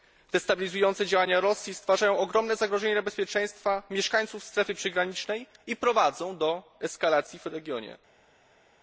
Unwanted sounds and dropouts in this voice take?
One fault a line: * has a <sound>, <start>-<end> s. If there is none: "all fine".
all fine